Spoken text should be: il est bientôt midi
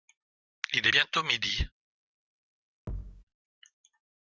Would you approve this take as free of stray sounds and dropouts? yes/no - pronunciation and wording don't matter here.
no